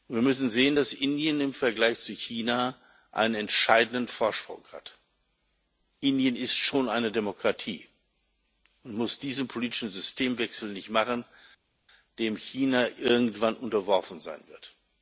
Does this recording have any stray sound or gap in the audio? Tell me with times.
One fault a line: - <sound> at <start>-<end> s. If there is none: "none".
none